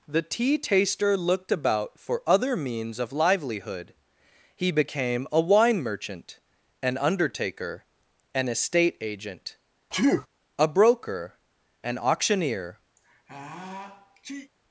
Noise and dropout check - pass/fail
fail